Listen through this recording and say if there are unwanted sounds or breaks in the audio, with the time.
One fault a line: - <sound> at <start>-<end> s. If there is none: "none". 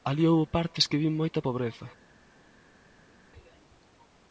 none